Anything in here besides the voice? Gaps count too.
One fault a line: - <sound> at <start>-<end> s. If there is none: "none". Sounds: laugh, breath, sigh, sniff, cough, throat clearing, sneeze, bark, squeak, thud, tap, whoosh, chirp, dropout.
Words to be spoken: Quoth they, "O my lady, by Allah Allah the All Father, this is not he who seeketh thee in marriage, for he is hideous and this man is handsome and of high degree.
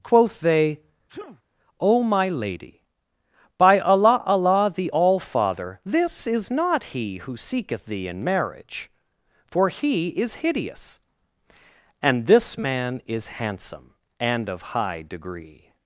- sneeze at 1.1-1.4 s